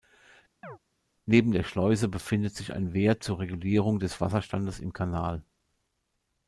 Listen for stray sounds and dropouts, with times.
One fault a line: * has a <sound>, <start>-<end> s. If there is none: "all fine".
* has a chirp, 0.6-0.8 s